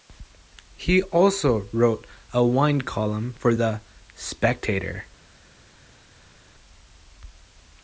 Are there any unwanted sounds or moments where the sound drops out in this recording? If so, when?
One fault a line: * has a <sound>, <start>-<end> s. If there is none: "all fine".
all fine